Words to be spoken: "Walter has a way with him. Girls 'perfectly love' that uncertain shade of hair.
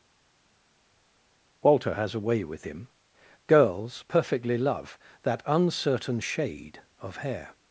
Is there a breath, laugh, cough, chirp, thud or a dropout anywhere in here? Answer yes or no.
no